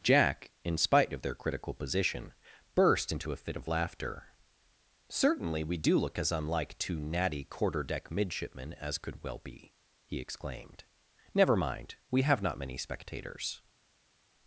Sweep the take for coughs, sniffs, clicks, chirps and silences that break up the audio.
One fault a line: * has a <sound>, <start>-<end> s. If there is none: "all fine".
all fine